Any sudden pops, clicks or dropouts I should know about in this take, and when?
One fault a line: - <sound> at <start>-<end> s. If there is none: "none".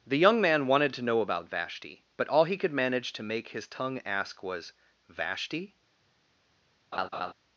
- laugh at 6.9-7.3 s